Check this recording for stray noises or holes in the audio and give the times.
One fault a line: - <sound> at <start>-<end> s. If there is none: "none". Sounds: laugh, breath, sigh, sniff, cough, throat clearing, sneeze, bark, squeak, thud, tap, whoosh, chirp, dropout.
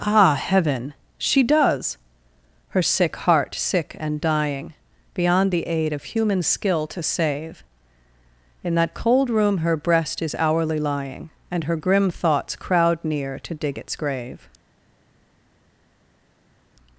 none